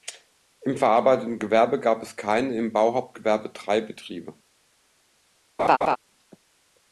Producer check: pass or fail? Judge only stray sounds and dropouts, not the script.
fail